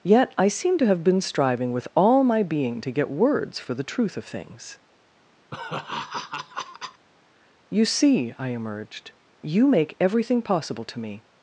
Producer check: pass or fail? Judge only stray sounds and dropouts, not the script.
fail